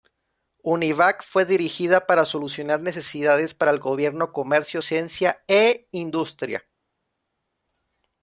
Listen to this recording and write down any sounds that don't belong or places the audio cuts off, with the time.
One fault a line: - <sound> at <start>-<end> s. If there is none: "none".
none